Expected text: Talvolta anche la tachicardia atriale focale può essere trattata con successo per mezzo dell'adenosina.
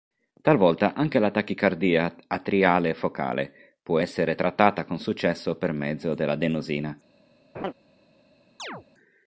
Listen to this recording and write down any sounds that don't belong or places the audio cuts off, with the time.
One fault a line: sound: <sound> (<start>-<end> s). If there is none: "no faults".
sound: laugh (7.5-7.7 s)
sound: chirp (8.6-8.8 s)